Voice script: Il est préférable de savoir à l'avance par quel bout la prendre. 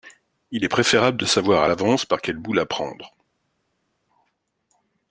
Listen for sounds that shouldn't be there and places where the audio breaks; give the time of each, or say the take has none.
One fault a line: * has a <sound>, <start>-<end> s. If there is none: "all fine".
all fine